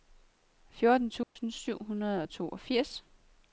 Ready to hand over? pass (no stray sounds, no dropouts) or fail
fail